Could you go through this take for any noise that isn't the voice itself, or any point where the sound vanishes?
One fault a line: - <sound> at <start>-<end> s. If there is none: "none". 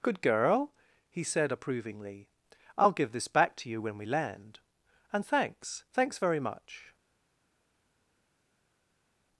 none